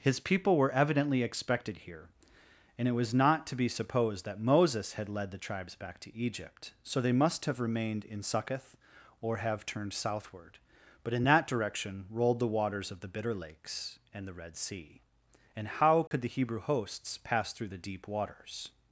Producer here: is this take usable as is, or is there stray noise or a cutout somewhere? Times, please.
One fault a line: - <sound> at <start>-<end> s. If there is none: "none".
- dropout at 16.1-16.1 s